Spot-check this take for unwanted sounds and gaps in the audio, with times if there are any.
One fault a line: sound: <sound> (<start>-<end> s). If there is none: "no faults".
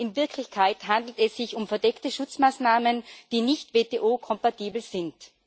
no faults